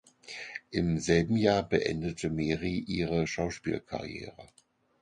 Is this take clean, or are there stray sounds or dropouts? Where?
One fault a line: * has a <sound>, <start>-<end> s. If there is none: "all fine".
all fine